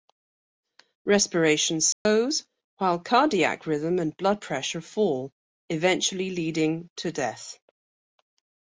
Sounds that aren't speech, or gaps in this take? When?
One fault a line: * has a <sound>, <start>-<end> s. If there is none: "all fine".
* has a dropout, 1.9-2.1 s